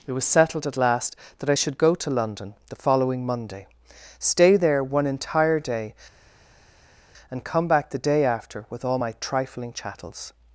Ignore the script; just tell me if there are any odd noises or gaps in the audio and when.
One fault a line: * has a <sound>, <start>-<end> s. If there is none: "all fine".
all fine